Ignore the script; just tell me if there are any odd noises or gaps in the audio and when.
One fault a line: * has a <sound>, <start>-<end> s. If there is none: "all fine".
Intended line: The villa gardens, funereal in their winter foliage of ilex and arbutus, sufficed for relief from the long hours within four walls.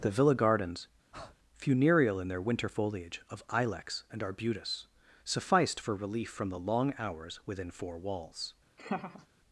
* has a breath, 1.1-1.4 s
* has a laugh, 8.8-9.3 s